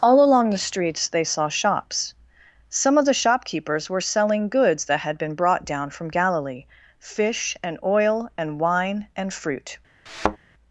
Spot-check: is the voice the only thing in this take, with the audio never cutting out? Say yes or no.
no